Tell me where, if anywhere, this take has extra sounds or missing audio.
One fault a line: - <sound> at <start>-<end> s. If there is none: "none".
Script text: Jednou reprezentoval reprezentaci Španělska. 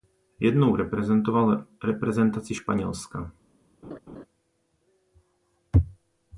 - laugh at 3.8-4.3 s